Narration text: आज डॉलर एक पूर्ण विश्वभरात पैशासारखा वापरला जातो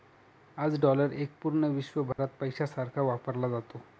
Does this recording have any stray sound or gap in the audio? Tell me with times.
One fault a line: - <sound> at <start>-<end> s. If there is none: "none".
- dropout at 2.1-2.2 s